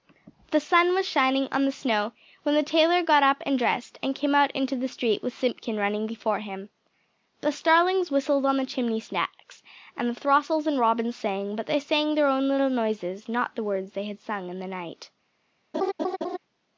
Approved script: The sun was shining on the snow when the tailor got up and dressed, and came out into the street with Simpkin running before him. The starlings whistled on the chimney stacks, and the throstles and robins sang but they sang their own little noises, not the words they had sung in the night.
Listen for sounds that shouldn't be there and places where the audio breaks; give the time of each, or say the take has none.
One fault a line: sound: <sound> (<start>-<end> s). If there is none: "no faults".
sound: laugh (15.7-16.4 s)